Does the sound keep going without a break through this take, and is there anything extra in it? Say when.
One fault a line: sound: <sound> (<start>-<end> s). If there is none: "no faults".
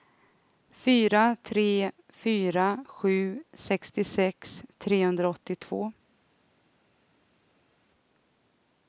no faults